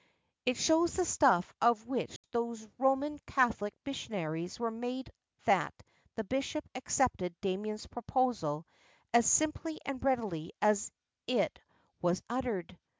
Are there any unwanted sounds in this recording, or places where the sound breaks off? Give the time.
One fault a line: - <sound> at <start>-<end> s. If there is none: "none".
- dropout at 2.2-2.2 s